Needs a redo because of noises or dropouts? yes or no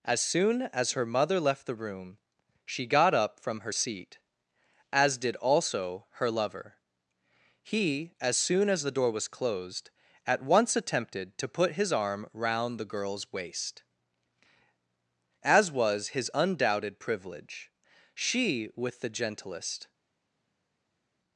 no